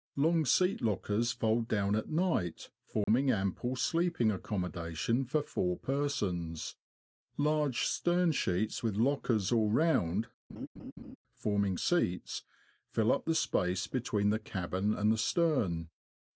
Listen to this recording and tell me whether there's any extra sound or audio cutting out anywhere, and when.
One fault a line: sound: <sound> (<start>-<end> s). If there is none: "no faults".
sound: dropout (3.0-3.1 s)
sound: laugh (10.5-11.2 s)